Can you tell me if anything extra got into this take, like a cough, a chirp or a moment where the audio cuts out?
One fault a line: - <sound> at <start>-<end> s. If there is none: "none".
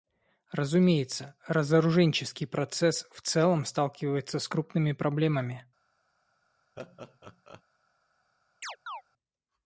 - laugh at 6.8-7.6 s
- chirp at 8.6-9.0 s